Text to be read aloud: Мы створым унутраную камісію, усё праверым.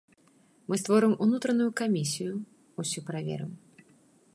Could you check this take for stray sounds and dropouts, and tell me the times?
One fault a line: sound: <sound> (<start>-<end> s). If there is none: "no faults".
no faults